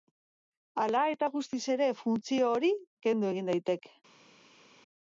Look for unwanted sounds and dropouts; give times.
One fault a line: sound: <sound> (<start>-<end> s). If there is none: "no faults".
no faults